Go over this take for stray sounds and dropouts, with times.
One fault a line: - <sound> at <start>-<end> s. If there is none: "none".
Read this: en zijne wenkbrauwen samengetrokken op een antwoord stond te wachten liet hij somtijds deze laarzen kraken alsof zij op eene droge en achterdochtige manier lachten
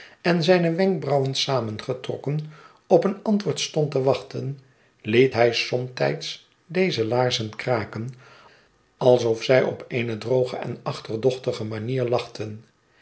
none